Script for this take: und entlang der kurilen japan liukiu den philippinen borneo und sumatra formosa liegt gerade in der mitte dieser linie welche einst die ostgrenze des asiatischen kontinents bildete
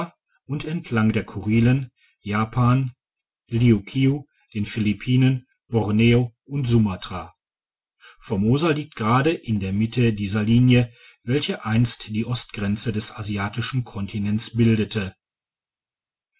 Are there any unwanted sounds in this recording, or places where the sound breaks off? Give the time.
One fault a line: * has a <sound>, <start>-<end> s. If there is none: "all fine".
all fine